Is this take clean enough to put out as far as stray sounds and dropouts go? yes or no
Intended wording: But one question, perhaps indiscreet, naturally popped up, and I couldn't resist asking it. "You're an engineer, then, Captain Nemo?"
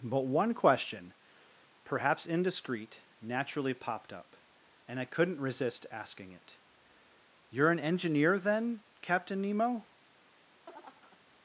no